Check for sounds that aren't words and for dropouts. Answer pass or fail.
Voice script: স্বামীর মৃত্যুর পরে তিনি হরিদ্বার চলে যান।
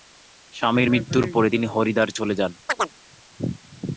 fail